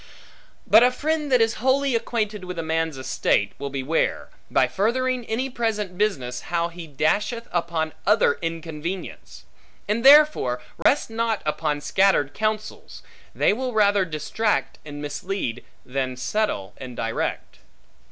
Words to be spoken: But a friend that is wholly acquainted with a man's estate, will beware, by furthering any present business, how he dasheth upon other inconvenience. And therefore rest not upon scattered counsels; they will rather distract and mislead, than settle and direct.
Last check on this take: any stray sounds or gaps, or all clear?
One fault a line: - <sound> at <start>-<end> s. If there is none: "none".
- dropout at 10.8-10.9 s